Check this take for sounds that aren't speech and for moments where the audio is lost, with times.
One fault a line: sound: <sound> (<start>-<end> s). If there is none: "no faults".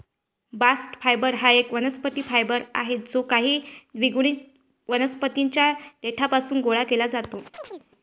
sound: chirp (7.5-7.9 s)